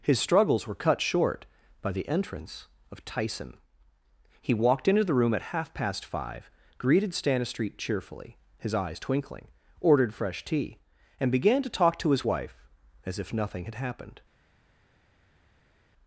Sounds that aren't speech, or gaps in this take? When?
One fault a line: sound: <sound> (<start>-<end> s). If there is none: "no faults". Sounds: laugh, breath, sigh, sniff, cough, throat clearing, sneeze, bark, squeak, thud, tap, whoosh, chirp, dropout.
no faults